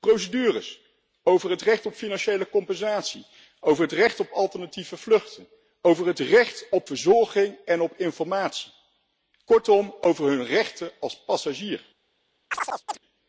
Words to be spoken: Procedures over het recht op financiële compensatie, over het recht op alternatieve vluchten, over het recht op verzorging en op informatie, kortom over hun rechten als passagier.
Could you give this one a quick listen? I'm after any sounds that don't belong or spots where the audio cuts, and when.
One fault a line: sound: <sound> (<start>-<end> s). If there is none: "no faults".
sound: chirp (12.5-13.0 s)